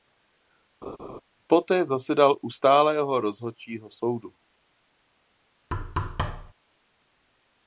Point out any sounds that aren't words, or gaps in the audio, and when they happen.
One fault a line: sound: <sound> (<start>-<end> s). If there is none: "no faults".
sound: laugh (0.8-1.2 s)
sound: thud (5.7-6.5 s)